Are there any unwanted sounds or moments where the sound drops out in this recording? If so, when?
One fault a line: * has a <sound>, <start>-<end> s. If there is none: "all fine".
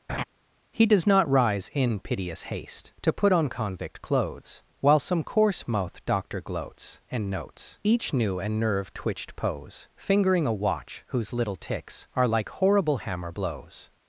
* has a laugh, 0.1-0.2 s